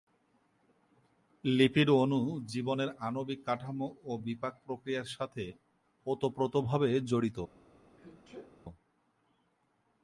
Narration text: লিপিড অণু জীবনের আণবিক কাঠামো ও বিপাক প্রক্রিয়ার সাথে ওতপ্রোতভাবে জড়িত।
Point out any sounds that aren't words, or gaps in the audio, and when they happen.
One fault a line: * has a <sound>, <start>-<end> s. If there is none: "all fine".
* has a sneeze, 8.0-8.6 s